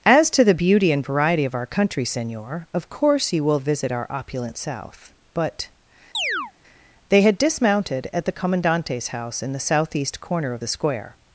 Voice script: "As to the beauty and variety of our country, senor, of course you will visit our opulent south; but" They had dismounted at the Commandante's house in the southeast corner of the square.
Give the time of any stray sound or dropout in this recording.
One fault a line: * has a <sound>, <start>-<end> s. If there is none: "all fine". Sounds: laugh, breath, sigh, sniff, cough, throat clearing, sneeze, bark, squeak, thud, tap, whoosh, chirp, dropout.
* has a chirp, 6.1-6.5 s